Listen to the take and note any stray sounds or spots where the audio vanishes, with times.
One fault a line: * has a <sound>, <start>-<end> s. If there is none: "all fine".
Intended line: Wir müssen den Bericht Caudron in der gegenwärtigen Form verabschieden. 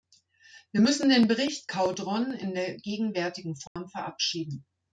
* has a dropout, 3.7-3.8 s